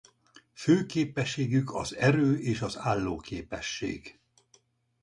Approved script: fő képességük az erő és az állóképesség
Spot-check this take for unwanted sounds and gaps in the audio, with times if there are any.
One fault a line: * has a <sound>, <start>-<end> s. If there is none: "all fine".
all fine